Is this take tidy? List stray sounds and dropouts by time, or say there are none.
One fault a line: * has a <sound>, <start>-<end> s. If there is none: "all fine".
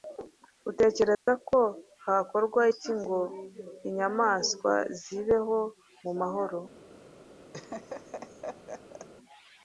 * has a dropout, 1.1-1.3 s
* has a laugh, 7.5-9.1 s